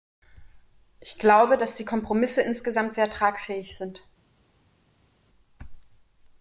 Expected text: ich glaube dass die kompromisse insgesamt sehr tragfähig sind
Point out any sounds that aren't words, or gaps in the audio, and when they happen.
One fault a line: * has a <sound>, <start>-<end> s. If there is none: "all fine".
all fine